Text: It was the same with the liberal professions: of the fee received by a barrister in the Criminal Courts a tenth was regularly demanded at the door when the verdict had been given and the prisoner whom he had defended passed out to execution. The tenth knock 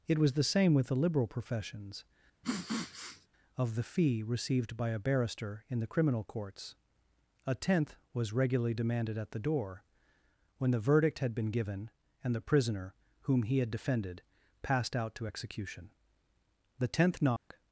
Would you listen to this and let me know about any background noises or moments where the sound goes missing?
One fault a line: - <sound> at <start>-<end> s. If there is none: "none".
- sniff at 2.4-3.3 s
- dropout at 17.4-17.5 s